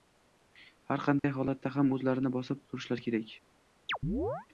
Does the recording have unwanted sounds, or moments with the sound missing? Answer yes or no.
yes